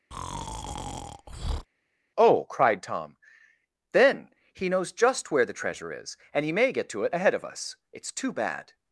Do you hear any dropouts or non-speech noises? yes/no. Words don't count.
yes